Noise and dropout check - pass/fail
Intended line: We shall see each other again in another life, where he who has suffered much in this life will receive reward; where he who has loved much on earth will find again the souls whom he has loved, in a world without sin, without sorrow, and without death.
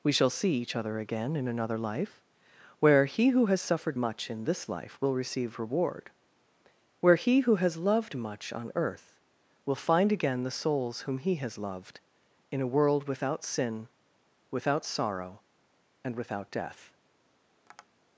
fail